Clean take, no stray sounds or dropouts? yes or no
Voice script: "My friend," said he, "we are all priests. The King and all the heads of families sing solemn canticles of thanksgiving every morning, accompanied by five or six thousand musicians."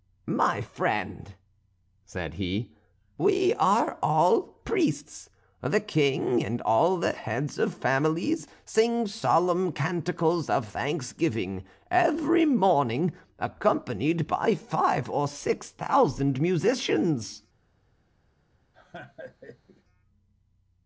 no